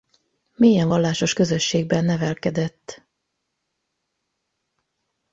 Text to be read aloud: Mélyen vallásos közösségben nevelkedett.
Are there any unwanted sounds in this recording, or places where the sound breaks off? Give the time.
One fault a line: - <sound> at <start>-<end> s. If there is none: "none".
none